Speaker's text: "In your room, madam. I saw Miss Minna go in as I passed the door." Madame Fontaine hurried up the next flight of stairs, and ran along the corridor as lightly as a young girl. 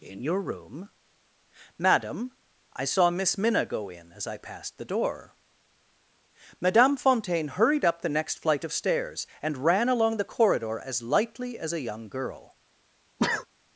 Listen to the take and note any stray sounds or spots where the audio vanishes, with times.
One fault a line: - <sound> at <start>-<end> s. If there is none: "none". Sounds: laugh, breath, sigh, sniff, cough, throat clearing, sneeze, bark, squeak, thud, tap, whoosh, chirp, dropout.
- sneeze at 13.2-13.5 s